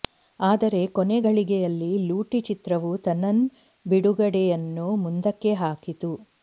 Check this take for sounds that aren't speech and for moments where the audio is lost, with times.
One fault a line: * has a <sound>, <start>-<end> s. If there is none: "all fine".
all fine